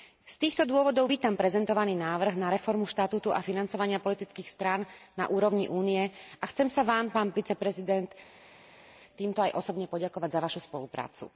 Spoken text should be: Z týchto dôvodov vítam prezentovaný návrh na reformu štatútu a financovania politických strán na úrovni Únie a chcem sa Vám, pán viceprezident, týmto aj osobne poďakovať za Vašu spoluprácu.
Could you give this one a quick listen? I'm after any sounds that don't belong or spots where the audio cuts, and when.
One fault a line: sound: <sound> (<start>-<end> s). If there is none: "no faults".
no faults